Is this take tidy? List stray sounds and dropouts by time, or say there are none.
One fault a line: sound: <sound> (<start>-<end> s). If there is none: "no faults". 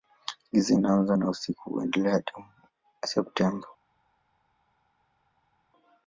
no faults